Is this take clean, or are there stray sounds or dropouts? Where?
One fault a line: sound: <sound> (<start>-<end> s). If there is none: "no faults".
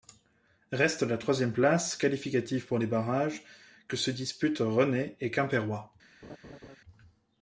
sound: laugh (6.2-6.8 s)